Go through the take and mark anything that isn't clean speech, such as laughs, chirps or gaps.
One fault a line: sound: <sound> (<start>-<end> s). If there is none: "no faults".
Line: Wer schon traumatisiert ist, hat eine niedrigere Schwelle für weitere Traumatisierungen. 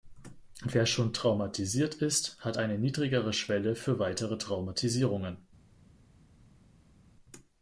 no faults